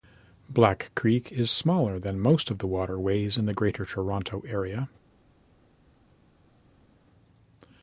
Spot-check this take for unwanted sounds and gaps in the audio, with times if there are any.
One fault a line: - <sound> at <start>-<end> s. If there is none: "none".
none